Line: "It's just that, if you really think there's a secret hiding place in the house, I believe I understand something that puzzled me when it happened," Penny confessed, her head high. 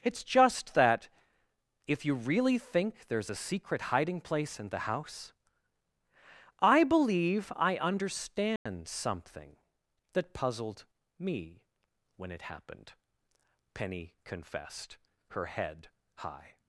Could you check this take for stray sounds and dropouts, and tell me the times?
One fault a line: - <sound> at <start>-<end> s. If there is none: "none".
- dropout at 8.6-8.7 s